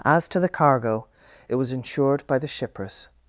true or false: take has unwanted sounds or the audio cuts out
false